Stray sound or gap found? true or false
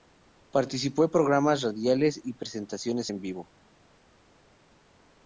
false